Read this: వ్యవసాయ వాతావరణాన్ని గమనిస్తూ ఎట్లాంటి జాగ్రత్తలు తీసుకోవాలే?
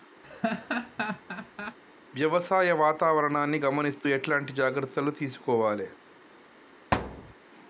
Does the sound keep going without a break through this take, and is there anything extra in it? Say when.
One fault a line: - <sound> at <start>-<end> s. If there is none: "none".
- laugh at 0.2-1.8 s
- thud at 6.9-7.3 s